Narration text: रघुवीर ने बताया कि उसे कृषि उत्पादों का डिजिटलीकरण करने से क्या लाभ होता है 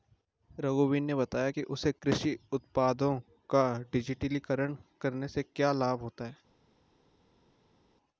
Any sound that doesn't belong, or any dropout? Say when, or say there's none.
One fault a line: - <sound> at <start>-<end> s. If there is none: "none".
none